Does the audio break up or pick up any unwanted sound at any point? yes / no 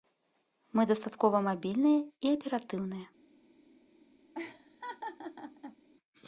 yes